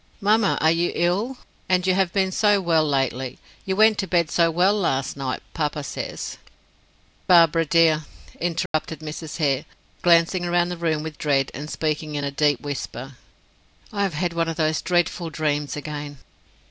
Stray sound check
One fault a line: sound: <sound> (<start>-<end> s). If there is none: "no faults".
sound: dropout (8.7-8.7 s)